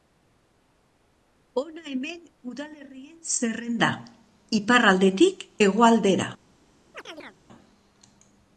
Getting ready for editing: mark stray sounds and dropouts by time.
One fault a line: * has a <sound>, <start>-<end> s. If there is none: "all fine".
* has a chirp, 6.9-7.4 s